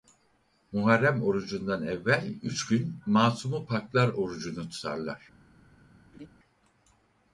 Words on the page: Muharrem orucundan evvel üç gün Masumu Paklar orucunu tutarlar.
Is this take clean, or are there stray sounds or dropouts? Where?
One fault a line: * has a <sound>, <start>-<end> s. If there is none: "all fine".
* has a laugh, 6.1-6.3 s